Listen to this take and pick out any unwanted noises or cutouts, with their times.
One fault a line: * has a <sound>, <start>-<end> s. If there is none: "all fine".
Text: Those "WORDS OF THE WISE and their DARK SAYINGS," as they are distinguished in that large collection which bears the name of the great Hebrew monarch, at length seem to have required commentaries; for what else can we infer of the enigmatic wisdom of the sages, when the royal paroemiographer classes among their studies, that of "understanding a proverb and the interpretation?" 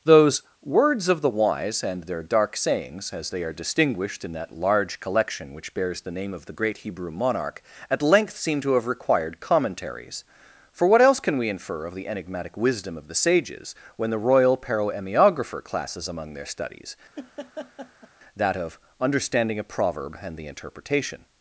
* has a laugh, 17.2-18.1 s